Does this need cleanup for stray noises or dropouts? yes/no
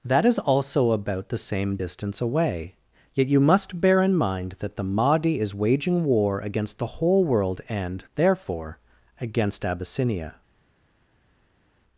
no